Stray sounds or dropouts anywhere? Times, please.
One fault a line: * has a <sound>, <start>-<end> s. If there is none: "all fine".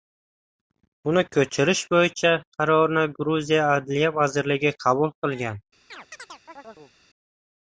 * has a chirp, 5.9-6.9 s